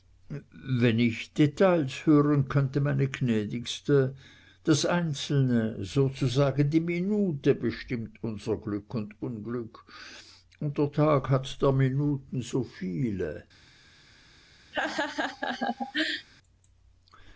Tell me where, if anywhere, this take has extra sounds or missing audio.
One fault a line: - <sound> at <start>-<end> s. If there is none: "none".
- laugh at 14.7-16.3 s